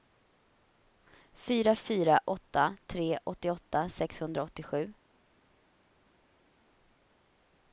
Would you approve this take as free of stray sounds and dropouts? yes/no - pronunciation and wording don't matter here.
yes